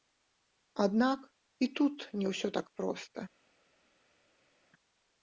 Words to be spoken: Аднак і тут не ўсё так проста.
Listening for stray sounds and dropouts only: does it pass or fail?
pass